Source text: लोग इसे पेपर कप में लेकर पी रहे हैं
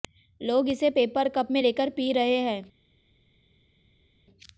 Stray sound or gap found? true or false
false